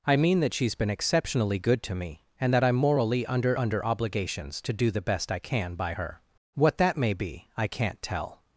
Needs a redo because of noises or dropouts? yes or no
no